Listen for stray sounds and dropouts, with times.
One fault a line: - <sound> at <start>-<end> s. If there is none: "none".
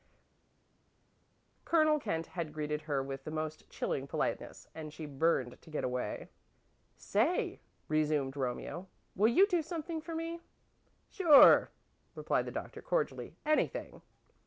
none